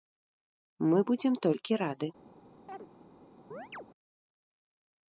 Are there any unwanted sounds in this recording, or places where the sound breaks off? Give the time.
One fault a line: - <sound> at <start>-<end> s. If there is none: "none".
- chirp at 2.7-2.9 s
- chirp at 3.5-3.9 s